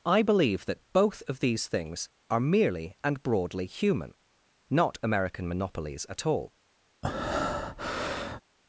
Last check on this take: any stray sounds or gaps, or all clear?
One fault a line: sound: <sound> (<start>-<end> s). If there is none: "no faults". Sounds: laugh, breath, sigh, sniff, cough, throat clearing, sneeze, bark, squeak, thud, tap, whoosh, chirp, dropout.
sound: breath (7.0-8.4 s)